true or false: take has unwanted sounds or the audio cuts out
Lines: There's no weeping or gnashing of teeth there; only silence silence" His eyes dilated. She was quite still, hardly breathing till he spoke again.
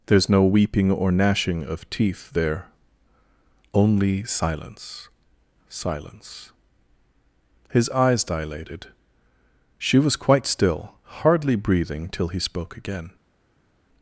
false